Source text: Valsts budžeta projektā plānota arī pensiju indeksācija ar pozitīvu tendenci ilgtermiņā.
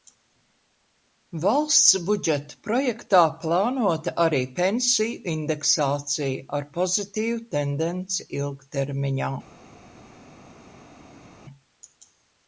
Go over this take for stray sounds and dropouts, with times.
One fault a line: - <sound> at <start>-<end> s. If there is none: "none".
none